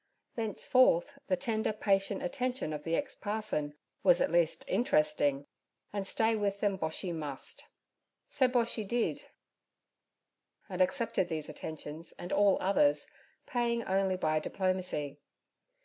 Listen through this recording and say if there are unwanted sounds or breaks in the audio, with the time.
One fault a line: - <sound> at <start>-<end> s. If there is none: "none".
none